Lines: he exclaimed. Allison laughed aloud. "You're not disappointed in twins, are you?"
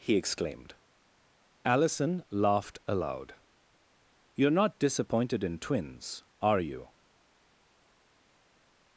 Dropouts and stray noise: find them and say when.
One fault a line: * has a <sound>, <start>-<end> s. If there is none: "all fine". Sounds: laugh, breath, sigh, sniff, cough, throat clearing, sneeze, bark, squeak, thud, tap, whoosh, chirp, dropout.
all fine